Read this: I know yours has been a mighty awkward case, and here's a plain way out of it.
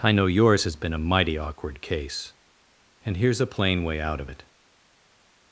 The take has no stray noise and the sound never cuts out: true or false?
true